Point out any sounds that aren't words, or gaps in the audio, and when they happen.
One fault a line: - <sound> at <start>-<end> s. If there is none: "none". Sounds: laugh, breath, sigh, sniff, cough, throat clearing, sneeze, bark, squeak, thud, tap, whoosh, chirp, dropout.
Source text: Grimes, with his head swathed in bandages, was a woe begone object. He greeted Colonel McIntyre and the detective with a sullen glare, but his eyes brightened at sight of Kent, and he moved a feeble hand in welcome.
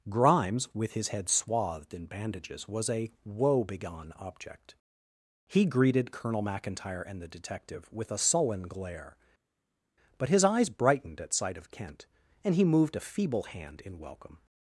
none